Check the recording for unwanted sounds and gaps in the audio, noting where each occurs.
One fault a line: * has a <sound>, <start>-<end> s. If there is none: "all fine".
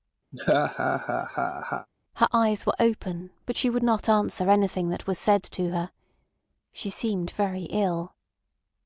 * has a laugh, 0.3-1.9 s